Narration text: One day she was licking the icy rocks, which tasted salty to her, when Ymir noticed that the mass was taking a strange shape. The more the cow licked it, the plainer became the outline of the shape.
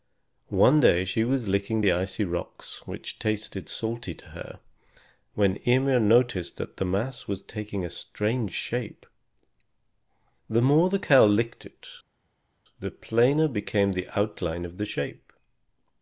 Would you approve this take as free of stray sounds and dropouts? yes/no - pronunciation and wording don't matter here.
yes